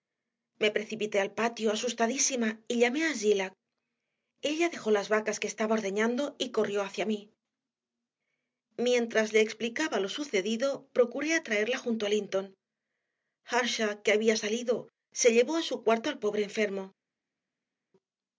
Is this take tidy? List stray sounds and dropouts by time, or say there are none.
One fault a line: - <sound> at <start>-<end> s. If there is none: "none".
none